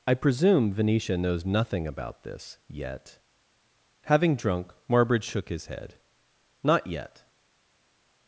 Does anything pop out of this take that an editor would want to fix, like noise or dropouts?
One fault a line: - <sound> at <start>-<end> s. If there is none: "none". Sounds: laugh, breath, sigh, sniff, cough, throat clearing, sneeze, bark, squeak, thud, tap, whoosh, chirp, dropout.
none